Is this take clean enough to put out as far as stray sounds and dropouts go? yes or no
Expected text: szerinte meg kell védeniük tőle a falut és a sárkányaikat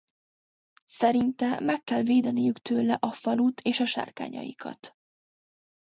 yes